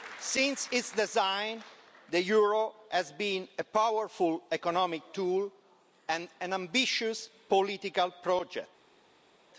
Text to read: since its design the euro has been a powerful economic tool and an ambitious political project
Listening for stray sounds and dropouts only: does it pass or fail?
pass